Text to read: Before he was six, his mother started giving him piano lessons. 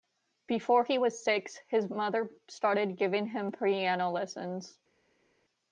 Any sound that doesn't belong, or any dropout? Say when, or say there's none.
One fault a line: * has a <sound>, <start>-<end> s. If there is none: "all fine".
all fine